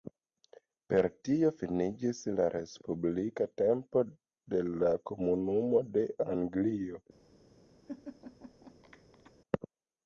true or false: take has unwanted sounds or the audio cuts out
true